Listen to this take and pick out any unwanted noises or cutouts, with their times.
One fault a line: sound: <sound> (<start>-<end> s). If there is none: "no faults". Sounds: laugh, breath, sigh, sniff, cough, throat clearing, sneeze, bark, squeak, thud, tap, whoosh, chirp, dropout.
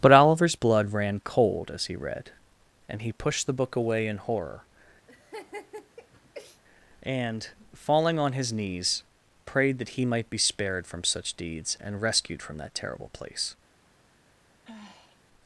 sound: laugh (5.1-6.6 s)
sound: sigh (14.6-15.2 s)